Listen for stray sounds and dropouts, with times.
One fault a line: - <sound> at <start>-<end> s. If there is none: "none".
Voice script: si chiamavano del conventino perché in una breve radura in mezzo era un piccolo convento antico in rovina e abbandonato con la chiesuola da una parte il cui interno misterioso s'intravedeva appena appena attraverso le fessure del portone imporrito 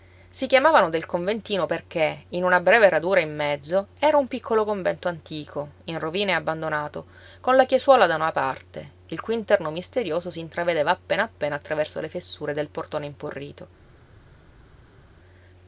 none